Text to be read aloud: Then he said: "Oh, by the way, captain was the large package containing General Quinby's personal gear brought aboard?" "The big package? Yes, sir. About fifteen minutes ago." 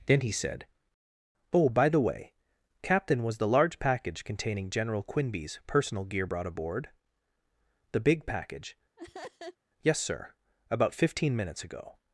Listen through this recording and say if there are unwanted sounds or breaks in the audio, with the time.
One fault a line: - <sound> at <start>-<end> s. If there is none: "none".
- laugh at 9.0-9.6 s